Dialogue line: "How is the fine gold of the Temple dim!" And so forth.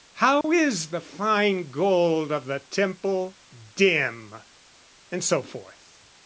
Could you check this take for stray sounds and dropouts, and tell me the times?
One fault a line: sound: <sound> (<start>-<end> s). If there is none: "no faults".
sound: dropout (0.4-0.4 s)